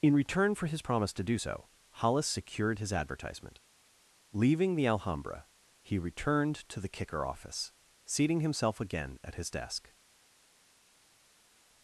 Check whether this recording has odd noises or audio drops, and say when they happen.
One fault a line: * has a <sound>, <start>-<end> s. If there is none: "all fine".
all fine